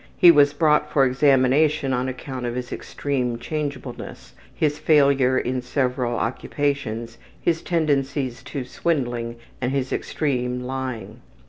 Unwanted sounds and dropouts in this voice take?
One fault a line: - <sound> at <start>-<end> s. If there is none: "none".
none